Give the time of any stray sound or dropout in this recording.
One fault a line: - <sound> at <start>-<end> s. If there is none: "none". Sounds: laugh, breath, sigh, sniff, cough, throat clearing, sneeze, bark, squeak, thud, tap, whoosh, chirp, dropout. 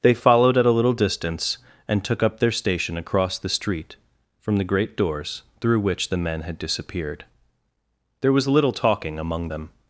none